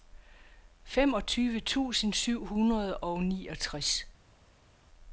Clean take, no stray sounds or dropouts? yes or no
yes